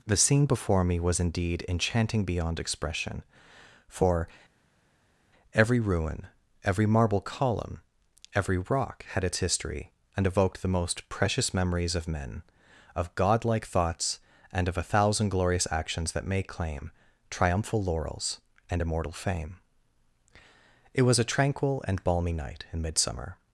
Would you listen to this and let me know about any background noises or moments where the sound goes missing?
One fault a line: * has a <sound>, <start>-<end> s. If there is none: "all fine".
all fine